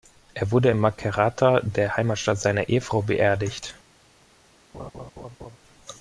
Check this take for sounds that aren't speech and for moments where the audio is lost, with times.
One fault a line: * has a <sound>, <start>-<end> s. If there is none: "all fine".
* has a laugh, 4.7-5.6 s